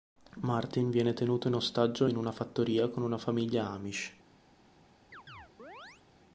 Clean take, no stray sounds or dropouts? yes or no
no